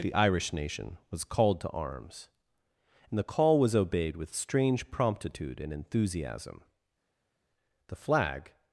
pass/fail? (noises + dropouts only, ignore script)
pass